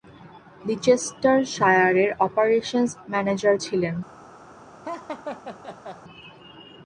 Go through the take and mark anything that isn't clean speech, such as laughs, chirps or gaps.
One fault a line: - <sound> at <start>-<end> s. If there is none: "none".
- laugh at 4.8-6.0 s